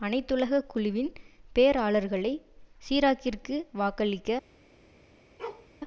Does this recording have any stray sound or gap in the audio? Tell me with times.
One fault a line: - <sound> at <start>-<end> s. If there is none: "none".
- bark at 5.4-5.7 s